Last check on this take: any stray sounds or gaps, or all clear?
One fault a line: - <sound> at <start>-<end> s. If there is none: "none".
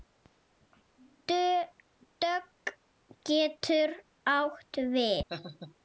- laugh at 5.3-5.7 s